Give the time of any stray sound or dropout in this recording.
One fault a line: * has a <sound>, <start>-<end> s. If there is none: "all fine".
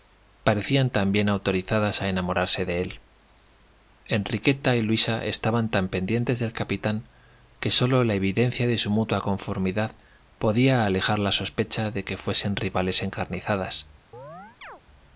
* has a chirp, 14.1-14.8 s